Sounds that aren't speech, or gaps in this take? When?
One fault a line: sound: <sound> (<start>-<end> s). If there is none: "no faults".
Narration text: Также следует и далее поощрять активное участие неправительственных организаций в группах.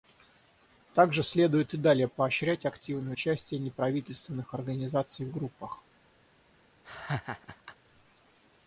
sound: laugh (6.8-7.8 s)